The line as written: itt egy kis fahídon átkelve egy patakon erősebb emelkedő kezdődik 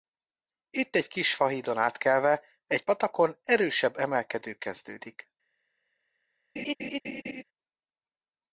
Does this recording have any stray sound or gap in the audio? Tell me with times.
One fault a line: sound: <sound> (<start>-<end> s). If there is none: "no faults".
sound: laugh (6.6-7.4 s)